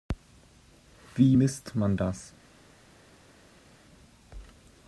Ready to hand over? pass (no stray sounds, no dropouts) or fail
pass